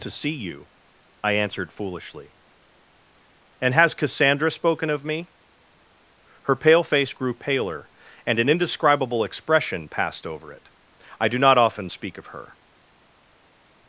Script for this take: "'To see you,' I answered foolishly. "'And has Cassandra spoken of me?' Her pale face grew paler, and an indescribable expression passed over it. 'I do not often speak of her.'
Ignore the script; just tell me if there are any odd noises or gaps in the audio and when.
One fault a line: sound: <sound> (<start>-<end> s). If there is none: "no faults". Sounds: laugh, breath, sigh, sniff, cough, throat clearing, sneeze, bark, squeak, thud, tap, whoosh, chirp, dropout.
no faults